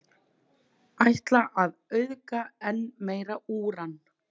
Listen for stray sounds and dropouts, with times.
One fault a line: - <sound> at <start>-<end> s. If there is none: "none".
none